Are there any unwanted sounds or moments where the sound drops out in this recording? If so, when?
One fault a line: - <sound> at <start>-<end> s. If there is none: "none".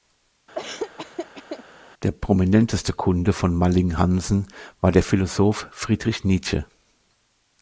- laugh at 0.5-1.6 s